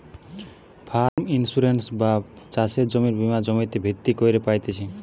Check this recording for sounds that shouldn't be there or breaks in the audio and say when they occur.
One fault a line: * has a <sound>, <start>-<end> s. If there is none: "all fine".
* has a dropout, 1.1-1.2 s